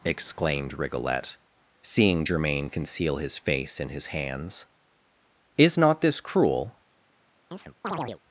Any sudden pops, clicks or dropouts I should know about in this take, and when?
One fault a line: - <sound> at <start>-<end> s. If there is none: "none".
- chirp at 7.5-8.2 s